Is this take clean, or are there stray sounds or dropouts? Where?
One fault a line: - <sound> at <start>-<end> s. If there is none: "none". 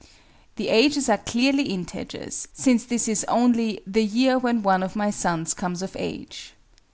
none